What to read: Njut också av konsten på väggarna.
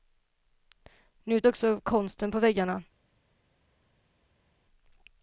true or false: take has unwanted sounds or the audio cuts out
false